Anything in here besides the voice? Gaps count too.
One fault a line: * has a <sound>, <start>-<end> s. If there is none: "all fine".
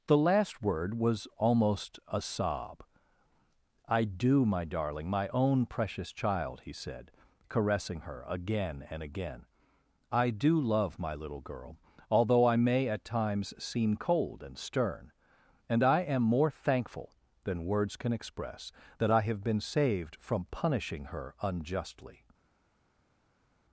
all fine